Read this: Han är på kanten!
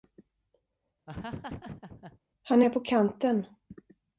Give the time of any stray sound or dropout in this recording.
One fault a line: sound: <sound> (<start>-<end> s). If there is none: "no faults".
sound: laugh (1.1-2.2 s)